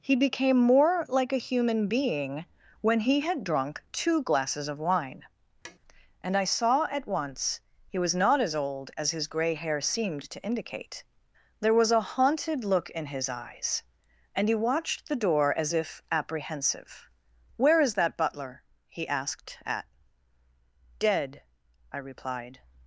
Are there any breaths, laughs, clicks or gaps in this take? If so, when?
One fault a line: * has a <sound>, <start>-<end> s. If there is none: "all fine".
* has a tap, 5.6-5.8 s